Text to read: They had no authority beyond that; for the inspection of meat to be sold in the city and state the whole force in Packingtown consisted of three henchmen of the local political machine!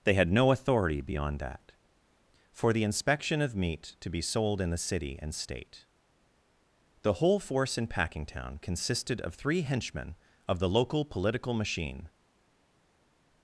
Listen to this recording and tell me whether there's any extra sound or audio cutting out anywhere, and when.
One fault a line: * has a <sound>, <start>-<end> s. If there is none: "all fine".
all fine